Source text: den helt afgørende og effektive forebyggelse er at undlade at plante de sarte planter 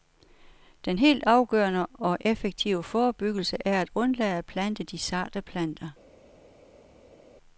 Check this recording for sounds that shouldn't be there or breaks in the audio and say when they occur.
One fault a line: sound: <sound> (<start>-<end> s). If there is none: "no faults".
no faults